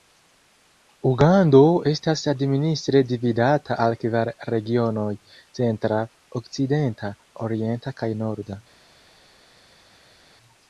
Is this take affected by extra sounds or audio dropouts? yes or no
no